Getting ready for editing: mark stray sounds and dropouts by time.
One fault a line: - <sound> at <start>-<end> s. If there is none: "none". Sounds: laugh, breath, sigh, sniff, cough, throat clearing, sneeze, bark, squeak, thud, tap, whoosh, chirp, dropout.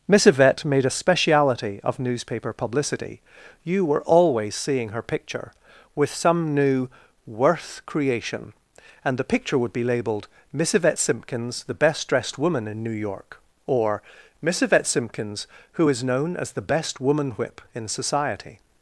none